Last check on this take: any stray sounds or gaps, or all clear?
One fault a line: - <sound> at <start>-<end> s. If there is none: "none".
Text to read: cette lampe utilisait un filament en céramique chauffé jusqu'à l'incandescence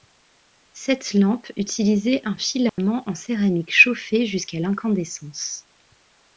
- dropout at 2.7-2.8 s